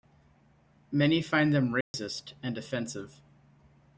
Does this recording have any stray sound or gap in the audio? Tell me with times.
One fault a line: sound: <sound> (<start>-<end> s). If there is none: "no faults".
sound: dropout (1.8-1.9 s)